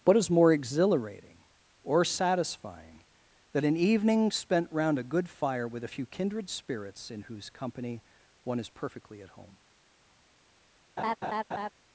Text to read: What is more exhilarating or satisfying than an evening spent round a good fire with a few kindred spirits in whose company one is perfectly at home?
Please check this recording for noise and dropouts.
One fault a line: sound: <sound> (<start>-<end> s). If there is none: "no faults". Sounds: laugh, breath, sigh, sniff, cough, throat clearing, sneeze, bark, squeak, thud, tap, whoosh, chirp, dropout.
sound: laugh (11.0-11.7 s)